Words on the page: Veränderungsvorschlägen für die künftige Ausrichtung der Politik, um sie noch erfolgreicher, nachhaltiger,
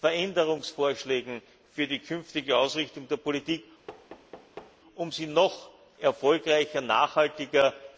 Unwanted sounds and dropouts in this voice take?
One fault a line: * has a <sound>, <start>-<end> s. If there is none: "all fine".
* has a thud, 3.9-4.8 s